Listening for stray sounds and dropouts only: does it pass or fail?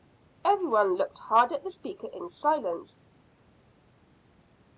pass